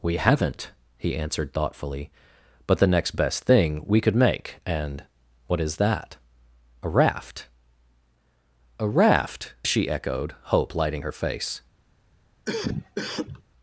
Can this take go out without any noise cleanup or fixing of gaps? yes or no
no